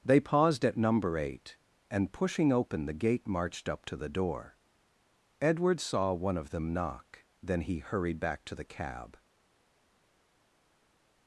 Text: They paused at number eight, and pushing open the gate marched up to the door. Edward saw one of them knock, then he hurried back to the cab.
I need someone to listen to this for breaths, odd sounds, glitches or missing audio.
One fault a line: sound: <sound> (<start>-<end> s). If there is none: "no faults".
no faults